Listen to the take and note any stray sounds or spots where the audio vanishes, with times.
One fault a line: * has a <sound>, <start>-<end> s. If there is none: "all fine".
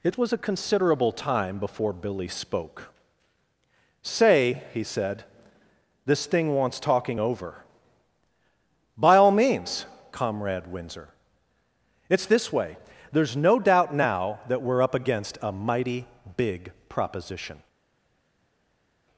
all fine